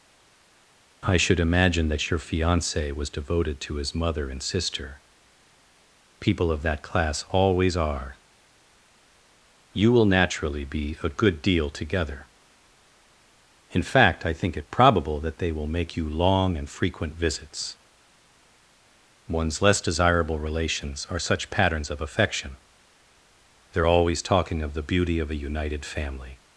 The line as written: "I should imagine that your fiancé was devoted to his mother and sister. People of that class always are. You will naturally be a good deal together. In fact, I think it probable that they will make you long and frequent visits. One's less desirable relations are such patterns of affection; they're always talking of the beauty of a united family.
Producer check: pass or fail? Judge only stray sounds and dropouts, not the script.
pass